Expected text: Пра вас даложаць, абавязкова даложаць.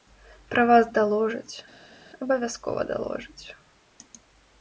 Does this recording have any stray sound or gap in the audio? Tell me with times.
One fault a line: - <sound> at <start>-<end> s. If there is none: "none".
none